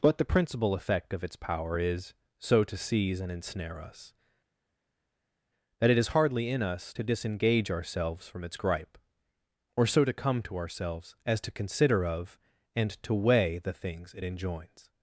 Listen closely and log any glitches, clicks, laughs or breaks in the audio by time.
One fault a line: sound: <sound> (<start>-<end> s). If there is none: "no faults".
no faults